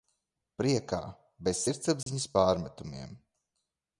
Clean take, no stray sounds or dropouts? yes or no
no